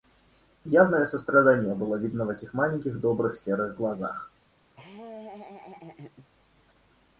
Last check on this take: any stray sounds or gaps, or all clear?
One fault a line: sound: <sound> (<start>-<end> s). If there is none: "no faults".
sound: laugh (4.7-6.3 s)